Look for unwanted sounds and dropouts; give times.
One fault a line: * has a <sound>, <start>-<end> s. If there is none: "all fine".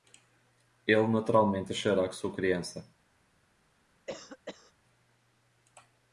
* has a cough, 4.1-4.7 s